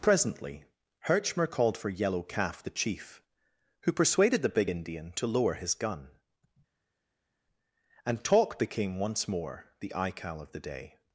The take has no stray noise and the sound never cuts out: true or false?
true